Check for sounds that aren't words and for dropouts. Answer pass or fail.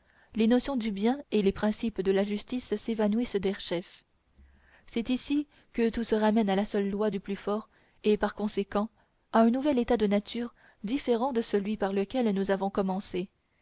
pass